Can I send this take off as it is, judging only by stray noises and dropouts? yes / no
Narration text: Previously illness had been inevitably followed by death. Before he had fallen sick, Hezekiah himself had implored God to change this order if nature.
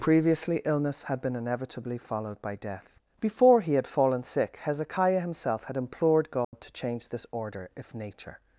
no